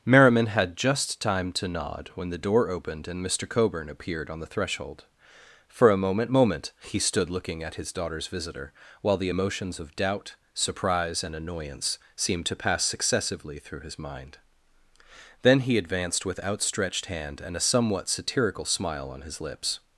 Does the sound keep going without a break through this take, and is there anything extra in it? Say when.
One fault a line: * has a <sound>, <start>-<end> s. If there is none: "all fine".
all fine